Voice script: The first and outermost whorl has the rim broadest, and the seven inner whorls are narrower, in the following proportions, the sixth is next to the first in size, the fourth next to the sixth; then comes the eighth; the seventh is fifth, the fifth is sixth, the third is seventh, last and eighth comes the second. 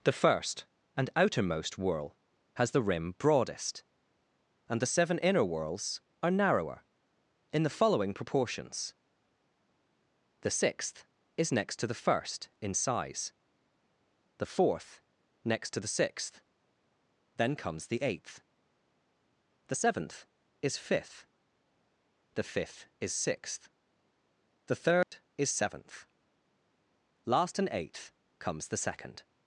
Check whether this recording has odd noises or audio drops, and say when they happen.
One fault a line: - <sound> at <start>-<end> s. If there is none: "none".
- dropout at 25.0-25.1 s